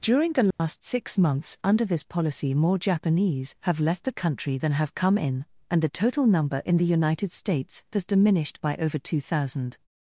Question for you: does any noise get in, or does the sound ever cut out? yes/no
yes